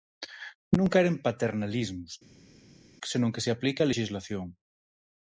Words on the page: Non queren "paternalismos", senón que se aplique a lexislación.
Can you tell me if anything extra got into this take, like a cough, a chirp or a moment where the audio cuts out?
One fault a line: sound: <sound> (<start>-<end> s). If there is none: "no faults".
no faults